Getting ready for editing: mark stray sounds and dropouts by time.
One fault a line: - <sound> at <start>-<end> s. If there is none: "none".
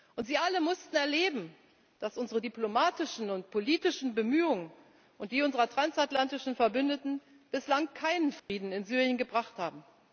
- dropout at 8.4-8.5 s